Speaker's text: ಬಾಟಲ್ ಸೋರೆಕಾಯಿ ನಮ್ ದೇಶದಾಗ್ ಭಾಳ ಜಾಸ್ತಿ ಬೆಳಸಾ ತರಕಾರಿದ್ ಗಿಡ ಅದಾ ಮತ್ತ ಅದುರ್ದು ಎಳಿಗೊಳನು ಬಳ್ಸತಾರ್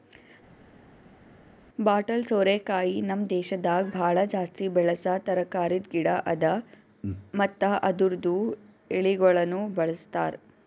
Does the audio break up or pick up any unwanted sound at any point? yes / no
no